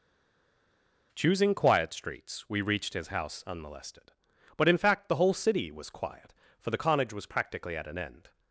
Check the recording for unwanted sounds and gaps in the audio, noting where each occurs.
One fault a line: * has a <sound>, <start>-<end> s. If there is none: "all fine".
all fine